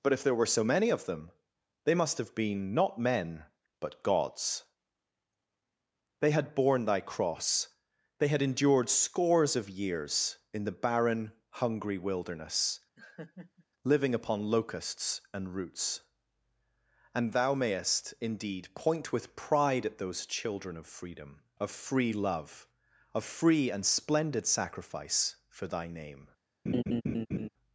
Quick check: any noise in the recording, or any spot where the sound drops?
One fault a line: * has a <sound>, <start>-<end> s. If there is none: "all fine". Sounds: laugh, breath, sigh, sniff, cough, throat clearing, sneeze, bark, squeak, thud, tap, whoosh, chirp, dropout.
* has a laugh, 13.0-13.7 s
* has a laugh, 26.7-27.5 s